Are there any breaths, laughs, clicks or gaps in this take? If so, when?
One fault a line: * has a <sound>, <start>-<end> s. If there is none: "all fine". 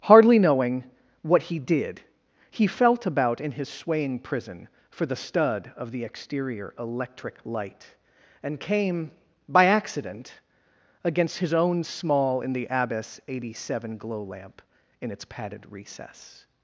all fine